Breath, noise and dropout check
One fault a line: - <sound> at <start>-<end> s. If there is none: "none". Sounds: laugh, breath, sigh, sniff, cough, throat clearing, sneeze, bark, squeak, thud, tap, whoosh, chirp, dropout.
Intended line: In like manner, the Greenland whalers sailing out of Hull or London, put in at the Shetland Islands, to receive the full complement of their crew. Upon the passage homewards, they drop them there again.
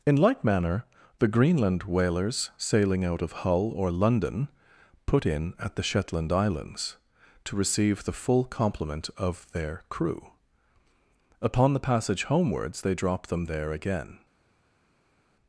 none